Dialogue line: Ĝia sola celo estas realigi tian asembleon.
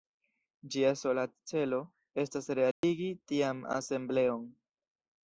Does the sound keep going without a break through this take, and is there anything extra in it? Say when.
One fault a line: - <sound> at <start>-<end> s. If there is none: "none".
- dropout at 2.7-2.8 s